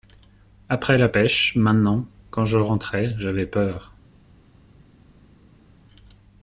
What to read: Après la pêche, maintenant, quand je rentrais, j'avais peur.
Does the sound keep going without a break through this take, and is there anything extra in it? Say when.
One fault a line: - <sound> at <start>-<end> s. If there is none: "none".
none